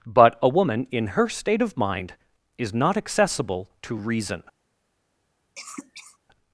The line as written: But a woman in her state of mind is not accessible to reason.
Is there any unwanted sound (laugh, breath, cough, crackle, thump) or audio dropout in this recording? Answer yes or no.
yes